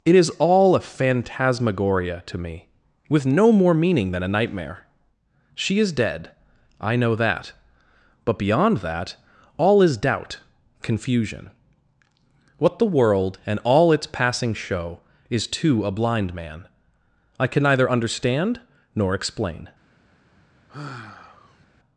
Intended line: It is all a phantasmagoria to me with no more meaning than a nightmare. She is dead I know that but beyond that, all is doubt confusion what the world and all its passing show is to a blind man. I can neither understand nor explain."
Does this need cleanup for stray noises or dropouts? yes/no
yes